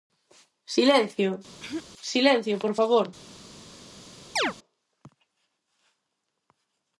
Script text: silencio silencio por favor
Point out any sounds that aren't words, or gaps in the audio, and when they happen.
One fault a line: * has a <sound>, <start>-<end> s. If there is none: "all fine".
* has a throat clearing, 1.6-1.8 s
* has a chirp, 4.4-4.5 s